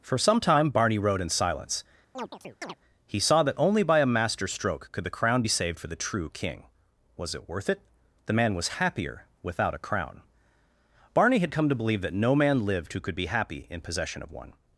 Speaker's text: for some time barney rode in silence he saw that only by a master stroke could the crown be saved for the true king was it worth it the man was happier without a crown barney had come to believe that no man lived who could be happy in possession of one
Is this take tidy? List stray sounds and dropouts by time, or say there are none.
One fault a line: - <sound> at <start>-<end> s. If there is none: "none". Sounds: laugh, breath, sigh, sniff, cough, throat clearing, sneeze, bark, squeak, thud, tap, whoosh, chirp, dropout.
- chirp at 2.1-2.8 s